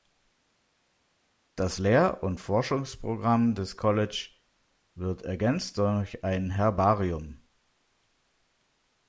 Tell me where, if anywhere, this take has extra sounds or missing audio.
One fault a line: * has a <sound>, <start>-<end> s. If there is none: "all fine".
all fine